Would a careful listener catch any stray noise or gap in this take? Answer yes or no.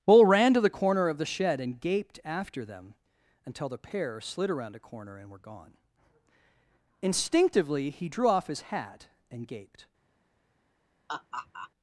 yes